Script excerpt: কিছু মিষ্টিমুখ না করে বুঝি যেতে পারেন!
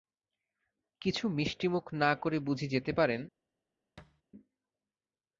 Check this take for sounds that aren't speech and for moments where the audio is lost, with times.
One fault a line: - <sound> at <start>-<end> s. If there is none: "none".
- thud at 4.0-4.2 s